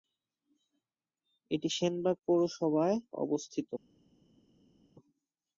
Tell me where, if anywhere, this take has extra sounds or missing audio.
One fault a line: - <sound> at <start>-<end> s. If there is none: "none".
none